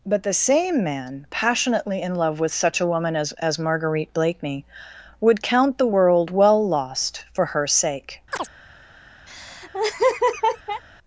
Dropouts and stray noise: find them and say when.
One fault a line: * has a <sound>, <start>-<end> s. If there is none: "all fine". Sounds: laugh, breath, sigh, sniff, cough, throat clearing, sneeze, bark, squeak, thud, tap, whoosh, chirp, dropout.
* has a chirp, 8.3-8.5 s
* has a laugh, 9.3-10.8 s